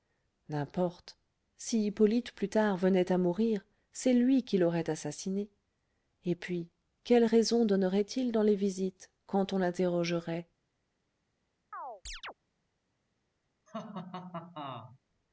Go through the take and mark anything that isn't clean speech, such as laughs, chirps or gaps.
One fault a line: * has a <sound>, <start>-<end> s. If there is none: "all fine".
* has a chirp, 11.7-12.3 s
* has a laugh, 13.7-15.0 s